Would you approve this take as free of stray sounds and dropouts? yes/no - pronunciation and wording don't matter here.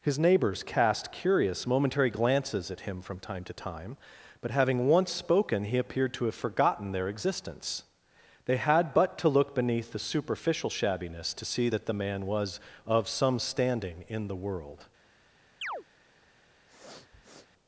no